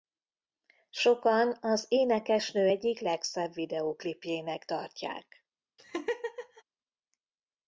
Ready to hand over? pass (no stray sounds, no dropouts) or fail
fail